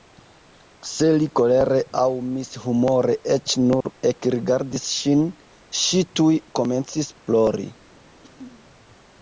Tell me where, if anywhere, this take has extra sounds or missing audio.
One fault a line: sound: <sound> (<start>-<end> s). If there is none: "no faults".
sound: dropout (3.8-3.8 s)
sound: throat clearing (8.2-8.7 s)